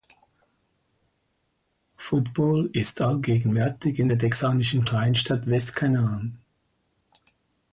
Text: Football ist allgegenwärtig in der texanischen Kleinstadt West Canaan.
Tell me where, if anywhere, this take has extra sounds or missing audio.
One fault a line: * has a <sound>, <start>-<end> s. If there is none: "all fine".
all fine